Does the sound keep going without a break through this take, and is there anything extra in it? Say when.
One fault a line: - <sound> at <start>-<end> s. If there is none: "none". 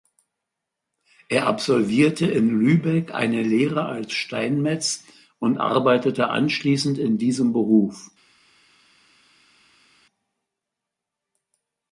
none